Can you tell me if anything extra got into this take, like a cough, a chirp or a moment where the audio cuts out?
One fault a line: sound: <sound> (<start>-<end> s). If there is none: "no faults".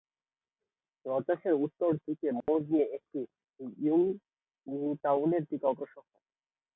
sound: dropout (2.4-2.5 s)